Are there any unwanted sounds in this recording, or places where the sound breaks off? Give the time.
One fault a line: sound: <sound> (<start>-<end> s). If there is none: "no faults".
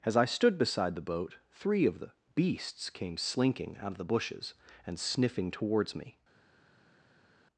no faults